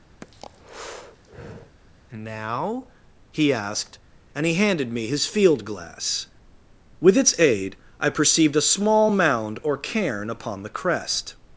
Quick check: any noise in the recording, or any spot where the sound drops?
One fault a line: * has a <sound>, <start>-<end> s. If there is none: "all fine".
* has a breath, 0.2-1.8 s